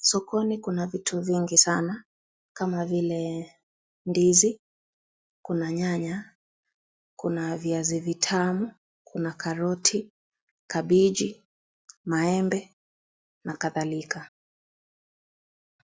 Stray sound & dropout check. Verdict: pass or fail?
pass